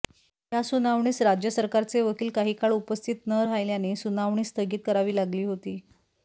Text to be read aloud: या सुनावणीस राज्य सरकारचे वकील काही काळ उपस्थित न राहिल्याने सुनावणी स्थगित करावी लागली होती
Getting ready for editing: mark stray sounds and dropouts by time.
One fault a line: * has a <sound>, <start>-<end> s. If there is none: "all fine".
all fine